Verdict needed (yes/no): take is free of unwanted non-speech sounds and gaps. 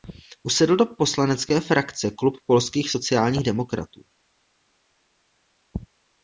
yes